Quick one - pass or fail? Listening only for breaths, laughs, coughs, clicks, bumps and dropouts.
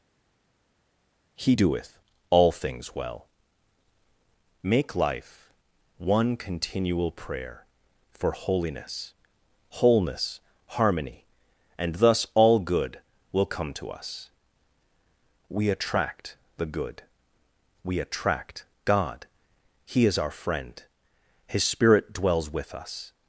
pass